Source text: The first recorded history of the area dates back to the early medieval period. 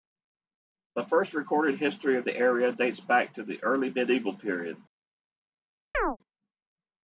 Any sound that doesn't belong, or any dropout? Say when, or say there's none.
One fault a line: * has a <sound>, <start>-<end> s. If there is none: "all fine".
* has a chirp, 5.9-6.2 s